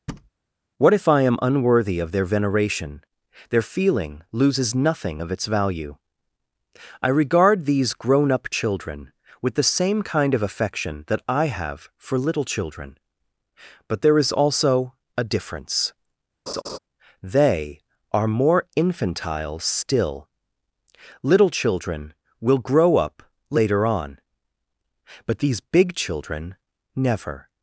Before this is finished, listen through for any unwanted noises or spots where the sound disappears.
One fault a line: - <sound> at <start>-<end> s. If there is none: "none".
- thud at 0.1-0.3 s
- laugh at 16.5-16.8 s